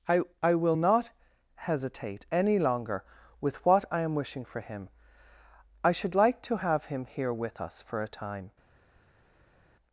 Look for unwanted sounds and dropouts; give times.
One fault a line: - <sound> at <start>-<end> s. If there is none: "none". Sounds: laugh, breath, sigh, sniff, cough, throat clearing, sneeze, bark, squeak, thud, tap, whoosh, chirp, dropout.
none